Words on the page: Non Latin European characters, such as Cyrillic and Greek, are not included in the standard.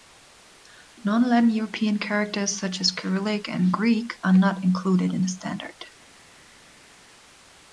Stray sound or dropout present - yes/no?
no